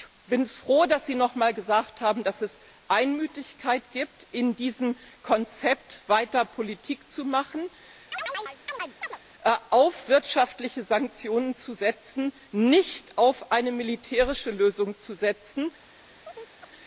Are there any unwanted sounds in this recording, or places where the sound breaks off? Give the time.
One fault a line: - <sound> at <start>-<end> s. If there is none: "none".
- chirp at 8.1-9.2 s
- chirp at 16.2-16.7 s